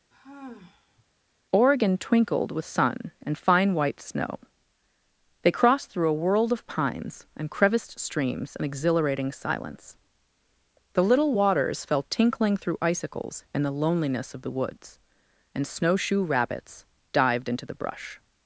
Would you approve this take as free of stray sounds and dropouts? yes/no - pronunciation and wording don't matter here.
no